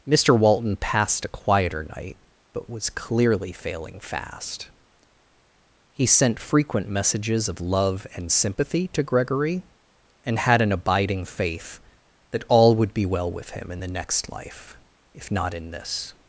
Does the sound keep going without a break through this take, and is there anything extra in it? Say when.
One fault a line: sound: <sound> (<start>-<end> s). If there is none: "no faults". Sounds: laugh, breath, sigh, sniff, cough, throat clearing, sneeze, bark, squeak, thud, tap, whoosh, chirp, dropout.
no faults